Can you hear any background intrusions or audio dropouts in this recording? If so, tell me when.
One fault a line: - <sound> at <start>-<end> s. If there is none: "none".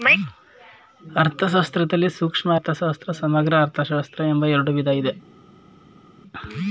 none